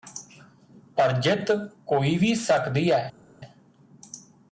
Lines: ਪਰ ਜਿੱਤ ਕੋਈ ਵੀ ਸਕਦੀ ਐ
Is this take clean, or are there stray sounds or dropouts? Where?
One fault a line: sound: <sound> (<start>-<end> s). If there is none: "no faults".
no faults